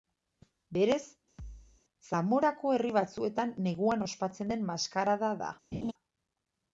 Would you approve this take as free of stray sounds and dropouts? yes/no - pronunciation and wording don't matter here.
no